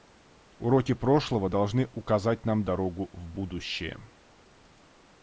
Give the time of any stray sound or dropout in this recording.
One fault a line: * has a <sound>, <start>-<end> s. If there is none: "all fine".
all fine